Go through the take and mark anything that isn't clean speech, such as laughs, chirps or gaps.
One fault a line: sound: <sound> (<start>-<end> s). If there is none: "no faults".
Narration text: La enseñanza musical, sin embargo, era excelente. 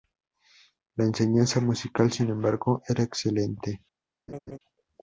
sound: laugh (4.3-4.6 s)